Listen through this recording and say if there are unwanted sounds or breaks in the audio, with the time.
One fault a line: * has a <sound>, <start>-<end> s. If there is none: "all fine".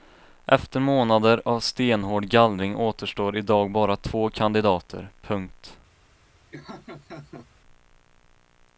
* has a laugh, 6.5-7.5 s